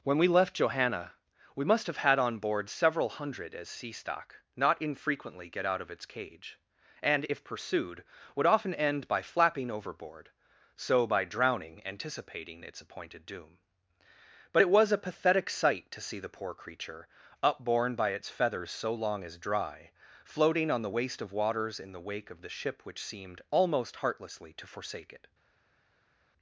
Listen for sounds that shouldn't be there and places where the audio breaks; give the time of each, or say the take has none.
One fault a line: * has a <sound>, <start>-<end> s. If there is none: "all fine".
all fine